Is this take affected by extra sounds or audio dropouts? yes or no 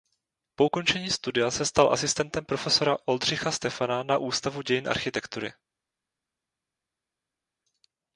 no